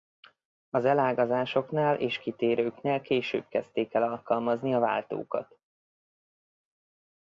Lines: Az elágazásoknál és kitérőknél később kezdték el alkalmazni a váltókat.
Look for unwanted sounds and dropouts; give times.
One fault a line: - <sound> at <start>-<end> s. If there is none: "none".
none